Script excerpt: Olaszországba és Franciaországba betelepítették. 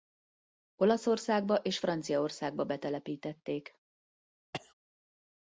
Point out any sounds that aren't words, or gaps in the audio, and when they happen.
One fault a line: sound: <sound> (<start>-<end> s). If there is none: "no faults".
sound: cough (4.5-4.7 s)